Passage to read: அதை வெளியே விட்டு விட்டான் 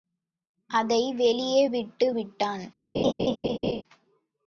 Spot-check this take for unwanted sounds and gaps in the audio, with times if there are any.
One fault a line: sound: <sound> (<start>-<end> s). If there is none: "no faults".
sound: laugh (2.9-3.8 s)